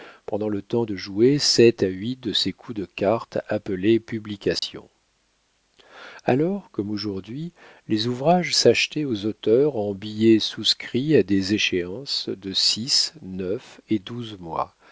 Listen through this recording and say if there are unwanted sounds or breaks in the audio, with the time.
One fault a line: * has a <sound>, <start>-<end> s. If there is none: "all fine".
* has a dropout, 4.6-4.6 s